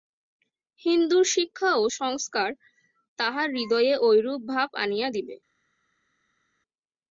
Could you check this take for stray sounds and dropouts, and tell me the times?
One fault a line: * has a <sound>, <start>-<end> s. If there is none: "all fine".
all fine